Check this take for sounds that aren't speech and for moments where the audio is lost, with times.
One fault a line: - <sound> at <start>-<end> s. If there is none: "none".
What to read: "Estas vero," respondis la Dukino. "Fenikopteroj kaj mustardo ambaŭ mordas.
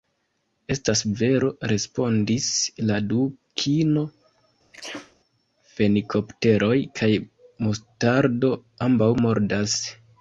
- sneeze at 4.7-5.2 s